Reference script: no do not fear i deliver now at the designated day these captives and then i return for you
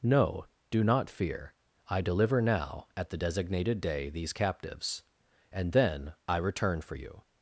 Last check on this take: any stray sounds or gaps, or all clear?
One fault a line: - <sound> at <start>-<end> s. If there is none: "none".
none